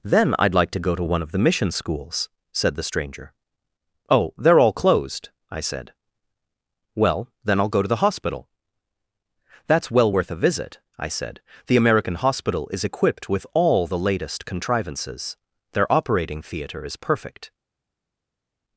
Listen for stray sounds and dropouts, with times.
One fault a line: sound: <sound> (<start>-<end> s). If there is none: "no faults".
no faults